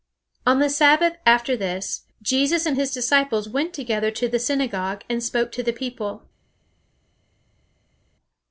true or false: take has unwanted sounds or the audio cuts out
false